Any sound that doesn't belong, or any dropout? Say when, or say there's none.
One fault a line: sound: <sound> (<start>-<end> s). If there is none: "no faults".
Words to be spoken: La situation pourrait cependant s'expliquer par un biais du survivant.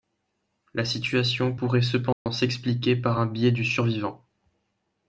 sound: dropout (2.1-2.3 s)